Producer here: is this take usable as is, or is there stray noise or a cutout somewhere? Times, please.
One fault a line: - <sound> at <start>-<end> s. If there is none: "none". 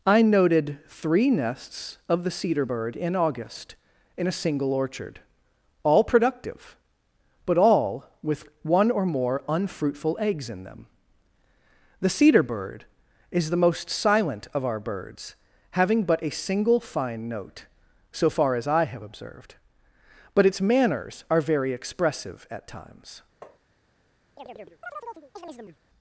- tap at 23.4-23.6 s
- chirp at 24.4-25.8 s